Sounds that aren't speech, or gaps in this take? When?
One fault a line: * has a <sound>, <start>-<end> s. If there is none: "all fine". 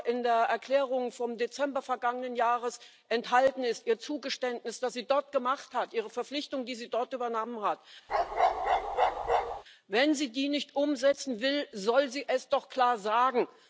* has a bark, 8.1-9.6 s